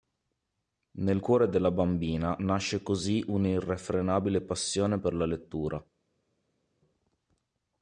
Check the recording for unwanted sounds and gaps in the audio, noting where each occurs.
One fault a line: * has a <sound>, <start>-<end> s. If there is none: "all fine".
all fine